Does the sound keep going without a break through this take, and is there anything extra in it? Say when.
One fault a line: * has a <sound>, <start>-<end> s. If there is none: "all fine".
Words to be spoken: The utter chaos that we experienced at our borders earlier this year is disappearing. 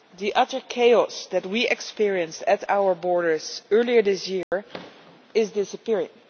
* has a dropout, 4.4-4.5 s